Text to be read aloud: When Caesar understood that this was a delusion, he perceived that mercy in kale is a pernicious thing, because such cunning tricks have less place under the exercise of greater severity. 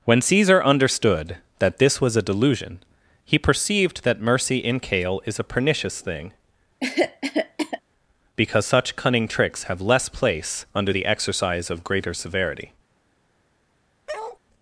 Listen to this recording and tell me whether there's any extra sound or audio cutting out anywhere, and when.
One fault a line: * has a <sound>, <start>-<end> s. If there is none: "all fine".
* has a cough, 6.8-7.8 s
* has a bark, 14.1-14.4 s